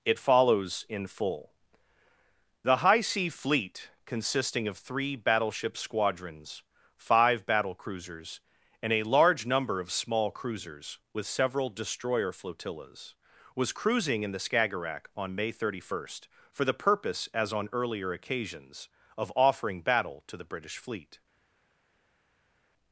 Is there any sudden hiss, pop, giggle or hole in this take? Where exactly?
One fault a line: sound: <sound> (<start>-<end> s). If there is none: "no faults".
no faults